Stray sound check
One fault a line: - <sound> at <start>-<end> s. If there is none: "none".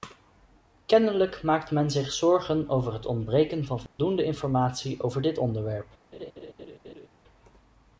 - dropout at 3.9-4.0 s
- laugh at 6.1-7.1 s